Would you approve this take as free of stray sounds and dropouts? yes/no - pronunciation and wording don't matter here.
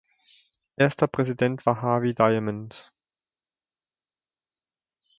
yes